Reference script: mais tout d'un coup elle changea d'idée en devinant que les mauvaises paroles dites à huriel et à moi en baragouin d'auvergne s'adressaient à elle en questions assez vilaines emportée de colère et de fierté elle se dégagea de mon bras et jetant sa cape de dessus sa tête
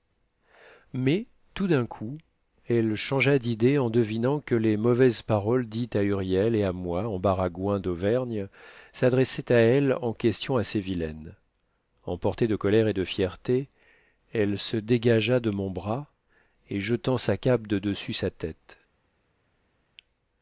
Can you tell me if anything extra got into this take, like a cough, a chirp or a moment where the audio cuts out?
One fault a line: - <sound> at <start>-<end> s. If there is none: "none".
none